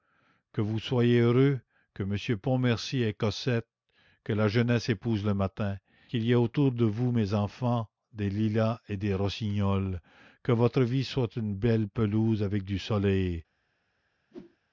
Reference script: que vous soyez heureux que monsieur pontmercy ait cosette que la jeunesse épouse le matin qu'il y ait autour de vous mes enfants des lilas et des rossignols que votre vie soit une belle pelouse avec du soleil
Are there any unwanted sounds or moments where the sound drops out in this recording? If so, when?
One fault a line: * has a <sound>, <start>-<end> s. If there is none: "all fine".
* has a whoosh, 14.3-14.6 s